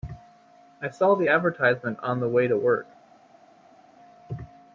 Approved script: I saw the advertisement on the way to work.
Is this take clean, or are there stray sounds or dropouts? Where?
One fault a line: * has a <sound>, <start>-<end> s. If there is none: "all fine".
all fine